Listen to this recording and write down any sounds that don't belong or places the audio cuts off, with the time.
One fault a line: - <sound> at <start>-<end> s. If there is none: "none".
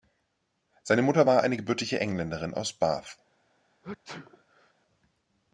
- sneeze at 3.8-4.7 s